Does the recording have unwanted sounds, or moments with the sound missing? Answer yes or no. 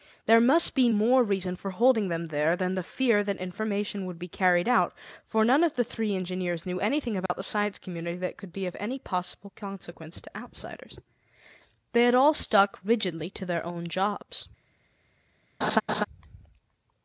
yes